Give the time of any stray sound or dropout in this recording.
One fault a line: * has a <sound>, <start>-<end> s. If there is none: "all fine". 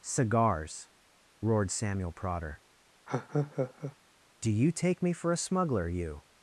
* has a laugh, 3.1-4.0 s